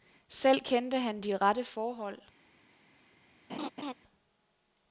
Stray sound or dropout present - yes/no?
yes